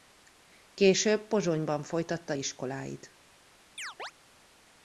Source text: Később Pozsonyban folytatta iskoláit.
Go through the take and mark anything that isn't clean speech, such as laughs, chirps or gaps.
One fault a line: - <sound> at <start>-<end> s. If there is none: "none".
- chirp at 3.8-4.1 s